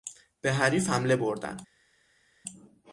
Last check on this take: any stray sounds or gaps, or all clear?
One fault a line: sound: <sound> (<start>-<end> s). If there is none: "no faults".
no faults